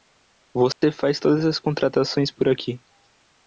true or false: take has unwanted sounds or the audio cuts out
true